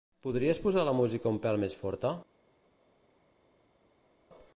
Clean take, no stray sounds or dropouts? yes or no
yes